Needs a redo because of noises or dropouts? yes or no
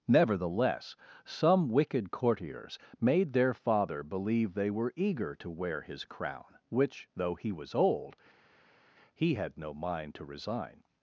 no